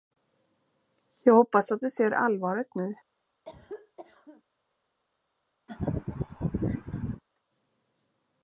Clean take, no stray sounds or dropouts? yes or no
no